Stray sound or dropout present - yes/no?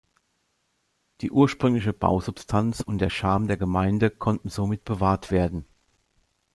no